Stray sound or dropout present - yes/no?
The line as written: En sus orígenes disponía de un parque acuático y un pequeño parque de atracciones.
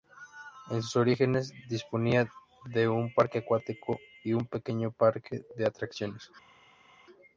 no